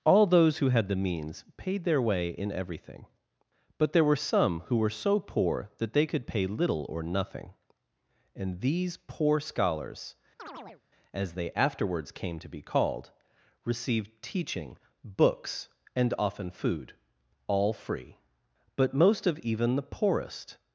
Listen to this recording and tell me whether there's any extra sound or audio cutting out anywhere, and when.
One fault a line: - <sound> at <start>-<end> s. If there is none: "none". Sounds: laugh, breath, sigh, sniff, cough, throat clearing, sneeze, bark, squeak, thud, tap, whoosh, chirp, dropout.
- chirp at 10.4-10.8 s